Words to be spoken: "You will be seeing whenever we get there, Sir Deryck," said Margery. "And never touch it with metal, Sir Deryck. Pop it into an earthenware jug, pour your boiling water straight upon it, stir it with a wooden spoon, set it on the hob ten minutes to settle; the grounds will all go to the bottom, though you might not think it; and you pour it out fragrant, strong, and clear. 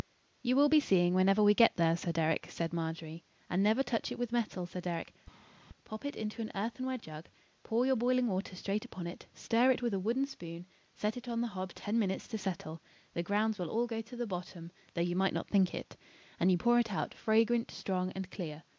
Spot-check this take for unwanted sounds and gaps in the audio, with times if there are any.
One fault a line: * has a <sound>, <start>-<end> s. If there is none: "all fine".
all fine